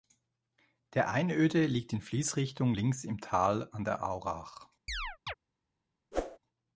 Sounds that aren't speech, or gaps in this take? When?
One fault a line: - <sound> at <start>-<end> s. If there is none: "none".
- chirp at 4.9-5.3 s
- whoosh at 6.1-6.4 s